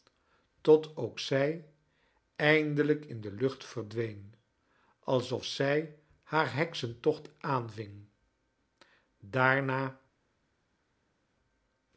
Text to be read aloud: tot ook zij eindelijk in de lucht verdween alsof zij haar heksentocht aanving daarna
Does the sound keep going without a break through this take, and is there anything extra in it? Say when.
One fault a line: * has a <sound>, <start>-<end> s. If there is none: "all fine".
all fine